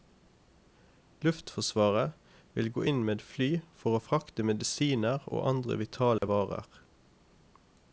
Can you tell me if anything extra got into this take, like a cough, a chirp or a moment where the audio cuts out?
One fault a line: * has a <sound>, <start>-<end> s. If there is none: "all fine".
* has a dropout, 6.2-6.2 s